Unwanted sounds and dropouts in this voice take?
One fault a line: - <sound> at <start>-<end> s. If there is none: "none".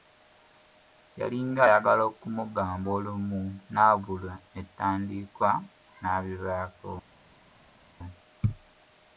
none